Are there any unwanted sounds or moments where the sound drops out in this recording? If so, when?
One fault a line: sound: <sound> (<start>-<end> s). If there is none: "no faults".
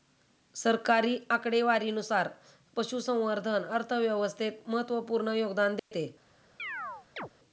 sound: dropout (5.8-5.9 s)
sound: chirp (6.6-7.3 s)